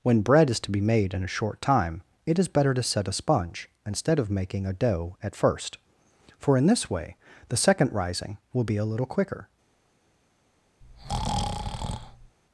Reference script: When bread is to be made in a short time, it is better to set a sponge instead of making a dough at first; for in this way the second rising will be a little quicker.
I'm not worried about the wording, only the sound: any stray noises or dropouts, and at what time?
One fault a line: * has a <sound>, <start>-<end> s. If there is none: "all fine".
* has a breath, 10.8-12.4 s